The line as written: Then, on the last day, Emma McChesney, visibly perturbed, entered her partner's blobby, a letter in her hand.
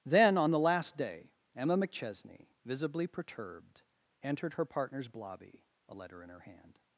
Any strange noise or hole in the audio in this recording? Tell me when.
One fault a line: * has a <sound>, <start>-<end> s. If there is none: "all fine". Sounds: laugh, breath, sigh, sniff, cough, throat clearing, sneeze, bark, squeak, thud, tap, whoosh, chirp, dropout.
all fine